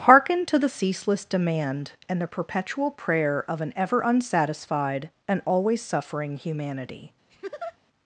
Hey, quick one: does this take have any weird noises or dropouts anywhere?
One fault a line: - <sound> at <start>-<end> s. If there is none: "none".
- laugh at 7.3-7.8 s